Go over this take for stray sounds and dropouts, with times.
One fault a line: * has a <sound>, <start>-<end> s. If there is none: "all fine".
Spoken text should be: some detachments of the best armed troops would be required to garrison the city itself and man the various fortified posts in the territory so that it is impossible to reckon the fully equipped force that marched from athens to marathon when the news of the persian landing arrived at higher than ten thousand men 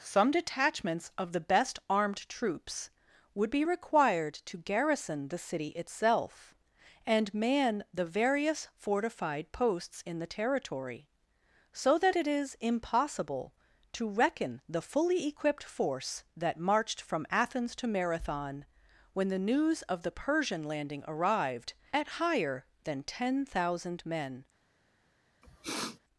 * has a sniff, 25.4-26.0 s